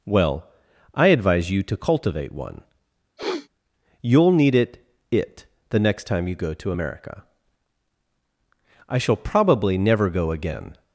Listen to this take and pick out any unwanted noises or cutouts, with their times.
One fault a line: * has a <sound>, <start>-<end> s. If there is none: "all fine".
* has a sniff, 3.2-3.5 s